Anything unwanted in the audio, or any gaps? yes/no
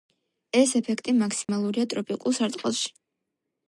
yes